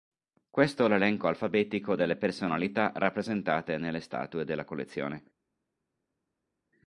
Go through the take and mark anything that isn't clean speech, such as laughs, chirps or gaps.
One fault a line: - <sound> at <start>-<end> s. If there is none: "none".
none